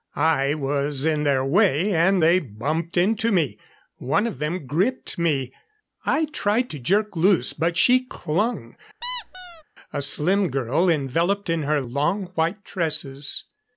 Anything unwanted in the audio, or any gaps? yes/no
yes